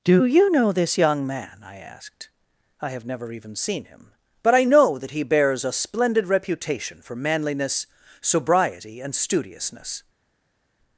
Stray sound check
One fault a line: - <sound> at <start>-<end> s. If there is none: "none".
none